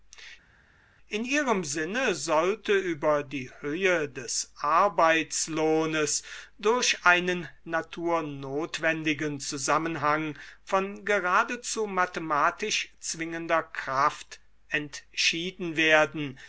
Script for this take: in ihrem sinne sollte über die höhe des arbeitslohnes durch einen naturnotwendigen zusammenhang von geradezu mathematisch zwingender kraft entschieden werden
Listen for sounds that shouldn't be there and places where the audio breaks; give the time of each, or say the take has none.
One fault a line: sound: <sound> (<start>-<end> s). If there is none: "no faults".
no faults